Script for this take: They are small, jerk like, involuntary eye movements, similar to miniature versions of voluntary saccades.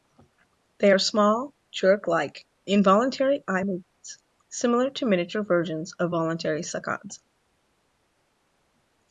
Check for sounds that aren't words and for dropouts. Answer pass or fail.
pass